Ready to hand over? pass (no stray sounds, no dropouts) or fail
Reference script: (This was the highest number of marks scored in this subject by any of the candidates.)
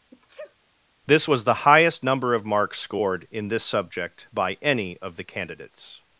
fail